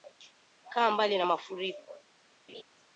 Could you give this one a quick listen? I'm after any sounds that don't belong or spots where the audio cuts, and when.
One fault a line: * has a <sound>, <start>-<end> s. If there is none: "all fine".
* has a laugh, 2.5-2.6 s